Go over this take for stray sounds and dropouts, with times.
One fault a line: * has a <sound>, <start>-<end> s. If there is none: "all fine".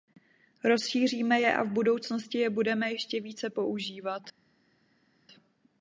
all fine